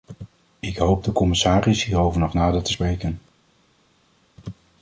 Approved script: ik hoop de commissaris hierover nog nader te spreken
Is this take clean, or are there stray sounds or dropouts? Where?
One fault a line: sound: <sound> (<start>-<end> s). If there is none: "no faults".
no faults